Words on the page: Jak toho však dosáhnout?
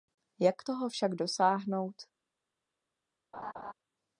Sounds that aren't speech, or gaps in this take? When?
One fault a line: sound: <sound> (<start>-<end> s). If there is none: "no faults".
sound: laugh (3.3-3.7 s)